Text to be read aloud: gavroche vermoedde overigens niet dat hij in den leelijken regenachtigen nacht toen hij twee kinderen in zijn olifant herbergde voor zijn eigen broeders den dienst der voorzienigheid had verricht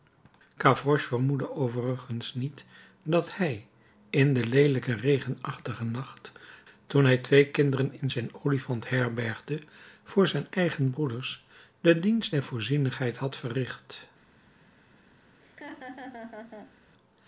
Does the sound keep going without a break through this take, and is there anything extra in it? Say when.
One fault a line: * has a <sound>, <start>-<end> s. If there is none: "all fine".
* has a laugh, 15.4-16.8 s